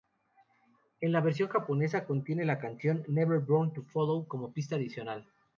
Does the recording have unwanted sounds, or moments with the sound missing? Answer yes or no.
no